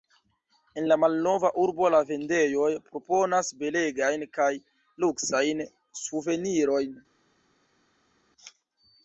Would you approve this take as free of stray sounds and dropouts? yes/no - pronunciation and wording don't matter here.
yes